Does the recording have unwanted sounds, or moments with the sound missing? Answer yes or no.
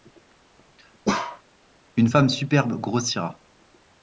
yes